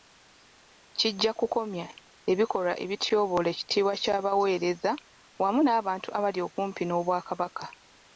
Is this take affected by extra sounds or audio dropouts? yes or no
no